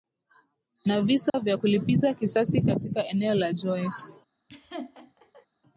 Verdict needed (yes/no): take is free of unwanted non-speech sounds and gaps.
no